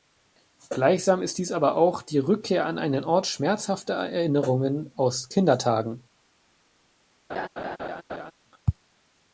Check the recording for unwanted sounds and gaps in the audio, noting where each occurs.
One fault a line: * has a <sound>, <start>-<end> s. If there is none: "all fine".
* has a laugh, 7.3-8.3 s